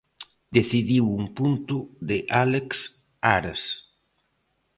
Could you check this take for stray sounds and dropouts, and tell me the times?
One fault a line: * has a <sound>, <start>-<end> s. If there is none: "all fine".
all fine